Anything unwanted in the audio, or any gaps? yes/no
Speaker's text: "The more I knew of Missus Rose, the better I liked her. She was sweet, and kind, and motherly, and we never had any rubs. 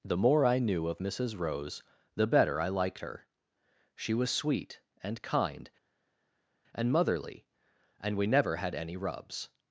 no